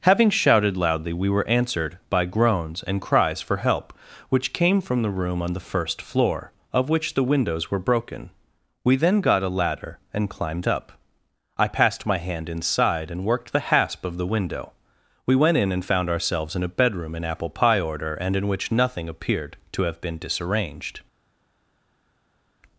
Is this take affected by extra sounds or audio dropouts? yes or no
no